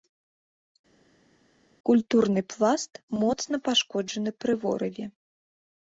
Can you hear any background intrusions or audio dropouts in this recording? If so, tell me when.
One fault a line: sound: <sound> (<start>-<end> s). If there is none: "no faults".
no faults